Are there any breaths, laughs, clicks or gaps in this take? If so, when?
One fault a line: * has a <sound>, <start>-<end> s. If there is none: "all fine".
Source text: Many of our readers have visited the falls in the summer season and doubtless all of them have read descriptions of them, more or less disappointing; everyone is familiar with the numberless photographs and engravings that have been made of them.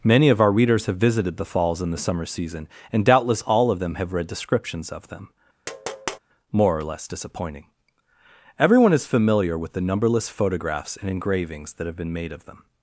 * has a tap, 5.7-6.2 s